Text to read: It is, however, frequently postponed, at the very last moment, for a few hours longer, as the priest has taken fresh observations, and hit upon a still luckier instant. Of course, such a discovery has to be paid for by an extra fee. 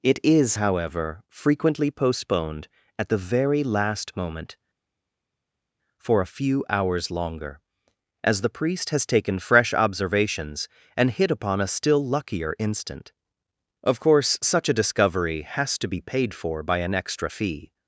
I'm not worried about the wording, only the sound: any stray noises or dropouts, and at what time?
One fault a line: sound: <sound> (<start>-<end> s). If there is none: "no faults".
no faults